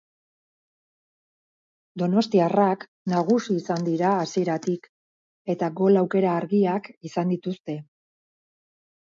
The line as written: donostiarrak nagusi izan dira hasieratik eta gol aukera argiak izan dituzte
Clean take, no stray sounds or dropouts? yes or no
yes